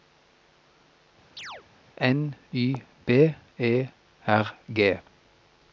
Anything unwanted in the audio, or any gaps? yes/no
yes